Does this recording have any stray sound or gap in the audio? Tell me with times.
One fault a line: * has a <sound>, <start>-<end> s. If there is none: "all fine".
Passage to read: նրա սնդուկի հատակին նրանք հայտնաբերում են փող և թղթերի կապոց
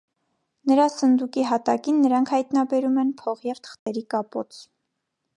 * has a dropout, 3.8-3.9 s